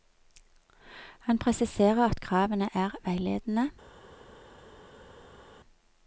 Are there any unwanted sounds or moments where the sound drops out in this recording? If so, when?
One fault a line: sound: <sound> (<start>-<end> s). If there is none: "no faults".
no faults